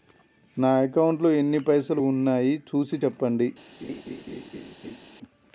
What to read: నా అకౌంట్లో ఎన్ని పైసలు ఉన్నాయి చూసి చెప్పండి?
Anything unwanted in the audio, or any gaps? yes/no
yes